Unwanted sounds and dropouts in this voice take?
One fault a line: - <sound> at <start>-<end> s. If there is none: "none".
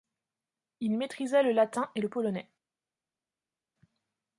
none